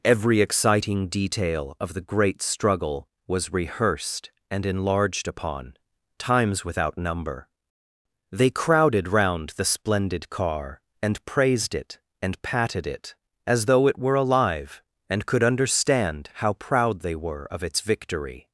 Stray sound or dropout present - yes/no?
no